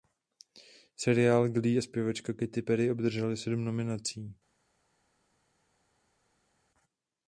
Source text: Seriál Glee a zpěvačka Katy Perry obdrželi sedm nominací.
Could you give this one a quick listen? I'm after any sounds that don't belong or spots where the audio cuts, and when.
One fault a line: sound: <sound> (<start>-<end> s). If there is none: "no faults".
no faults